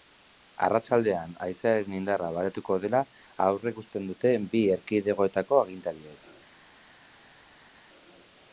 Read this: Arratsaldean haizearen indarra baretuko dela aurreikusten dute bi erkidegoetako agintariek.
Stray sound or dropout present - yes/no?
no